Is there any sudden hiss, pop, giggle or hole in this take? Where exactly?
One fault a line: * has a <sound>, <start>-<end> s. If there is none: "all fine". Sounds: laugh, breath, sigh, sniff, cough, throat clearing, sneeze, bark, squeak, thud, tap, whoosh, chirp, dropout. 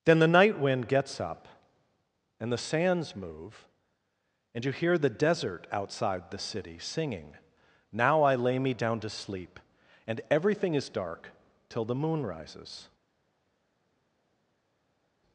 all fine